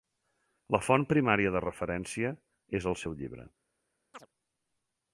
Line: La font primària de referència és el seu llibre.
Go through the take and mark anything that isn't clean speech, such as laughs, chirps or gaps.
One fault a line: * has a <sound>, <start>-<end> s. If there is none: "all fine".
* has a chirp, 4.1-4.3 s